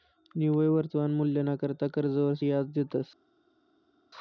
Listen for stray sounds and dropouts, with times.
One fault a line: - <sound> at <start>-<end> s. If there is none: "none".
none